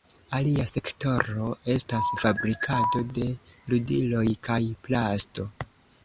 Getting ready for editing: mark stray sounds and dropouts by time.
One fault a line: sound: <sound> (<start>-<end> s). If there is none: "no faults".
no faults